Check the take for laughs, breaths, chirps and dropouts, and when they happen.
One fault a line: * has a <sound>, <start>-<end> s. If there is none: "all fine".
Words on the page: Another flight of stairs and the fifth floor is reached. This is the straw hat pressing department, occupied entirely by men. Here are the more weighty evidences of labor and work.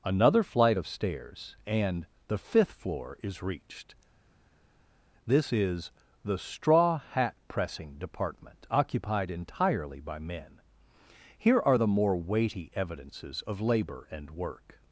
all fine